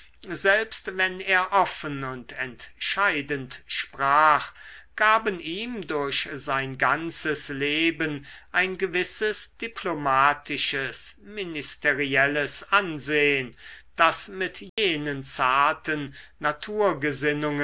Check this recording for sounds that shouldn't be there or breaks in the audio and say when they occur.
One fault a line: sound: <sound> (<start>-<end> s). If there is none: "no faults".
sound: dropout (14.7-14.8 s)